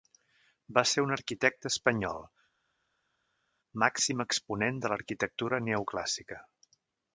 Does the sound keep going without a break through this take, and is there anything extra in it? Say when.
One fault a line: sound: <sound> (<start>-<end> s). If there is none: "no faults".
no faults